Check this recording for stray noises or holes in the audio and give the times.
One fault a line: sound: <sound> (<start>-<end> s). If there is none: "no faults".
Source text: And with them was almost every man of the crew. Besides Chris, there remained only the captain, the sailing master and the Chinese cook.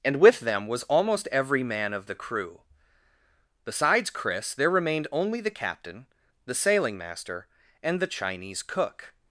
no faults